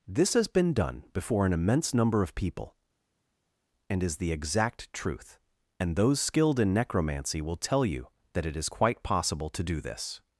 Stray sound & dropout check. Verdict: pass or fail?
pass